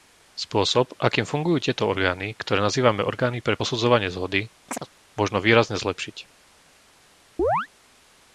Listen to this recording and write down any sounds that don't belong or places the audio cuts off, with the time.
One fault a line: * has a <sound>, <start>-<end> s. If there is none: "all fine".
* has a chirp, 4.7-4.9 s
* has a chirp, 7.4-7.7 s